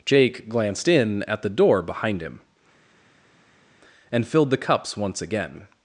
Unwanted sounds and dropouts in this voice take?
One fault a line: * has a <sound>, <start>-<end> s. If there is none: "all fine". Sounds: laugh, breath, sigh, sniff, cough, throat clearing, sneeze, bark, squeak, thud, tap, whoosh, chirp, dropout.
all fine